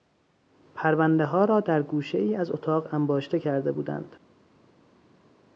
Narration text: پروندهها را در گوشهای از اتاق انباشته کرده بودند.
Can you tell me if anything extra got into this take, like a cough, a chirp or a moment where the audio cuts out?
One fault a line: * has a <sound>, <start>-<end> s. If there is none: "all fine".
all fine